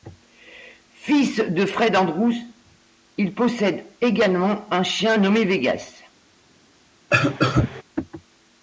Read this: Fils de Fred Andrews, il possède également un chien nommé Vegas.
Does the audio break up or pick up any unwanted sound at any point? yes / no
yes